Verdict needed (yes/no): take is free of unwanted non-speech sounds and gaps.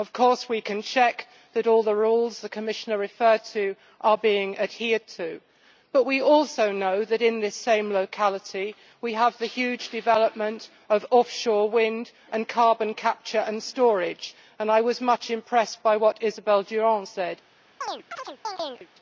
no